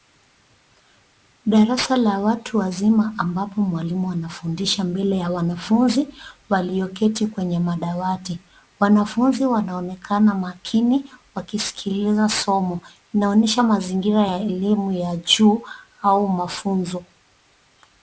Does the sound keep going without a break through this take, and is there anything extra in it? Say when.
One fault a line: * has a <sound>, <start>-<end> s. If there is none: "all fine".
all fine